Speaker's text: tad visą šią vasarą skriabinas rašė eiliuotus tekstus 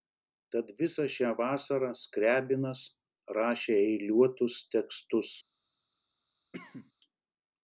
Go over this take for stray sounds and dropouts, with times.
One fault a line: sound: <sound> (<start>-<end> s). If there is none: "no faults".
sound: cough (6.5-6.9 s)